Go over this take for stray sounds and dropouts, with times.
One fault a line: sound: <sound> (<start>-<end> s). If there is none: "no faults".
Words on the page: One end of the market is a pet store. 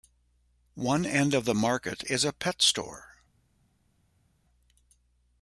no faults